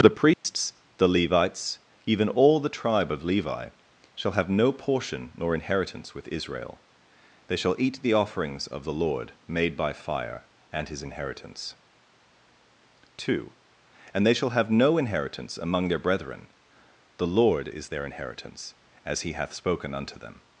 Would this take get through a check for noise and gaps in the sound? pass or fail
fail